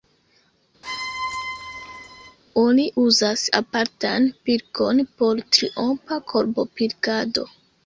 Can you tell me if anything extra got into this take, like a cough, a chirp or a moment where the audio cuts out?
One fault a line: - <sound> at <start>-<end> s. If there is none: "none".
- squeak at 0.8-2.4 s